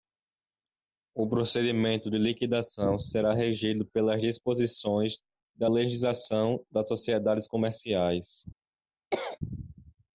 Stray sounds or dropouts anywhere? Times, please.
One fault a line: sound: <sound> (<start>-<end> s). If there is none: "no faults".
sound: cough (9.1-9.4 s)